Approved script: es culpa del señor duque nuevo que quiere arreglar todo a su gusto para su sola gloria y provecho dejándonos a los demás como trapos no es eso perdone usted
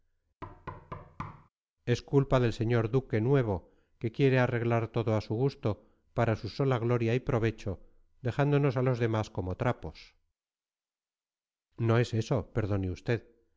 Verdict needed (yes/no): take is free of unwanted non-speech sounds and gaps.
no